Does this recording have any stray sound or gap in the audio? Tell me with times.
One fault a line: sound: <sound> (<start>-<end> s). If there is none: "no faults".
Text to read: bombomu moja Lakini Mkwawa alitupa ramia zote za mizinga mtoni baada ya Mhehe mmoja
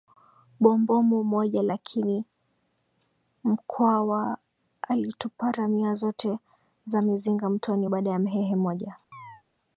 sound: chirp (9.1-9.4 s)